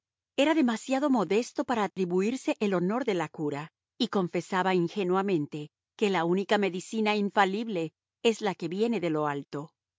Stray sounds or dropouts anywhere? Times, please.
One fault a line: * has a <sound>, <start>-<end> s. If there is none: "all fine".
* has a dropout, 1.9-2.0 s